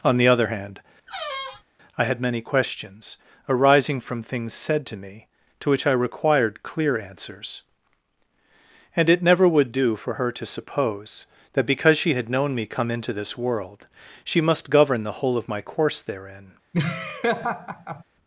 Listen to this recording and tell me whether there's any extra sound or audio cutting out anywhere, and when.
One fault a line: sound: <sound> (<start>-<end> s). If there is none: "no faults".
sound: squeak (1.1-1.6 s)
sound: laugh (16.7-18.0 s)